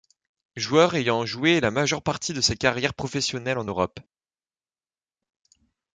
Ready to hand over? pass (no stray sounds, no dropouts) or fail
pass